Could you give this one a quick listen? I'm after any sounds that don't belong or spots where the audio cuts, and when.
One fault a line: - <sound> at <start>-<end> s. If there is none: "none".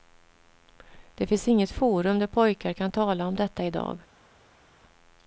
none